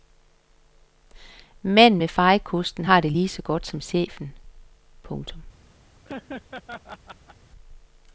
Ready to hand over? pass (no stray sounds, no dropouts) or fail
fail